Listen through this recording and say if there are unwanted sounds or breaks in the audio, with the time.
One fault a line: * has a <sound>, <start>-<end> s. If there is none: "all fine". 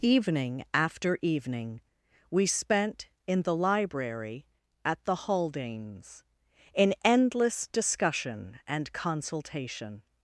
all fine